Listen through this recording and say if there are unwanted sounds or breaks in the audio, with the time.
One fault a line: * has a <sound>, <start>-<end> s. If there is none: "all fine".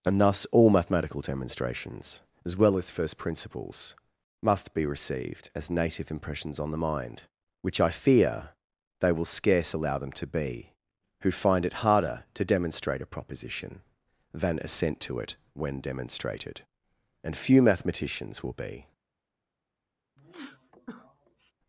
* has a sneeze, 20.2-21.5 s